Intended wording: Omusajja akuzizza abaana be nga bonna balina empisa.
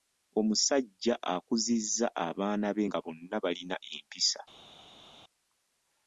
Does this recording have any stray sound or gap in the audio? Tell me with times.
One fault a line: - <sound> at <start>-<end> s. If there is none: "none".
none